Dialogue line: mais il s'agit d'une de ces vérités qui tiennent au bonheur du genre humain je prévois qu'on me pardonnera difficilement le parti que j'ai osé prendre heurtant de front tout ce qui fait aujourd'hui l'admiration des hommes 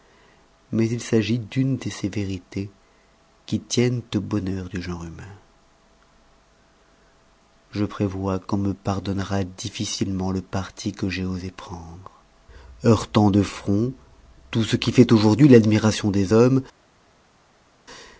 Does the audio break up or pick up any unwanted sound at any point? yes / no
no